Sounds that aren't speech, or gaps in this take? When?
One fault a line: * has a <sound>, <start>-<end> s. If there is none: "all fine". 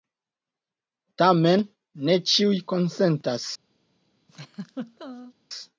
* has a laugh, 4.3-5.3 s